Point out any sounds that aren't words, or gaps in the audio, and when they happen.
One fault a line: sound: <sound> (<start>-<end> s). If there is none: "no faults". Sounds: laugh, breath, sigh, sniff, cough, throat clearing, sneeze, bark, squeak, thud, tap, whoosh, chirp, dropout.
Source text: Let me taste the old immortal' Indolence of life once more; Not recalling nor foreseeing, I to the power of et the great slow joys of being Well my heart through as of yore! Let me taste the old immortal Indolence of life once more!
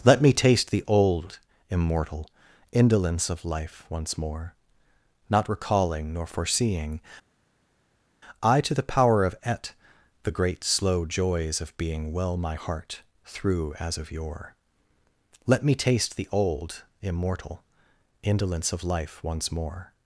no faults